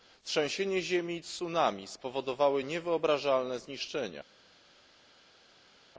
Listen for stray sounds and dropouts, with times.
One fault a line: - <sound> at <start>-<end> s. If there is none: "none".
none